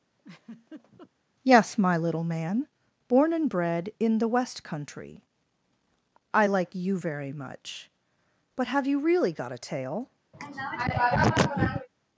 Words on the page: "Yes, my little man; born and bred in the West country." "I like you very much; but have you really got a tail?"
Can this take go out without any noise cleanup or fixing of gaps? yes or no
no